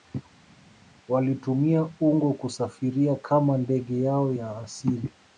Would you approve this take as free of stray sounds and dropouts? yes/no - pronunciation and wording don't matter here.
yes